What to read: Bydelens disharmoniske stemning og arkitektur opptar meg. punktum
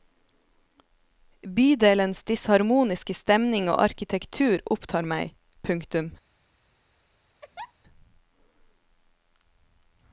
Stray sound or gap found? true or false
true